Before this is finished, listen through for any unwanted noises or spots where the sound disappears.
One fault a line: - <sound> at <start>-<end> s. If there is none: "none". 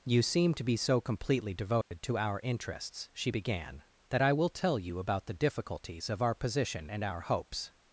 - dropout at 1.8-1.9 s